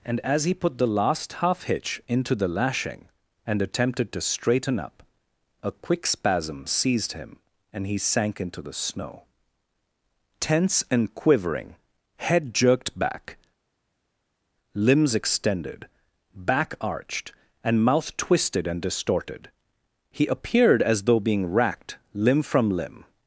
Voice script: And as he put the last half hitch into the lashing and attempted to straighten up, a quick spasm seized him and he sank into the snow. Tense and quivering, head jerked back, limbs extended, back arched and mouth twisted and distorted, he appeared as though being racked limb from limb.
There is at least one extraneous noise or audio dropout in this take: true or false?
false